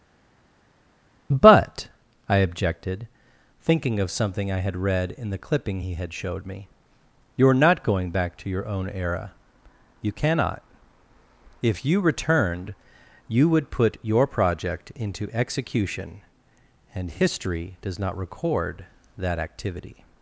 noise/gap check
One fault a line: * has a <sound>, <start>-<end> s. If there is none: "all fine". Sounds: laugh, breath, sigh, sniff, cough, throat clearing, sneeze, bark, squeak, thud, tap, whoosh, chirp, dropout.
all fine